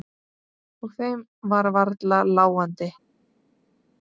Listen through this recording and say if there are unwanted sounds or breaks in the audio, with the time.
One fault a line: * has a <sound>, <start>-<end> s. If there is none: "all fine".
all fine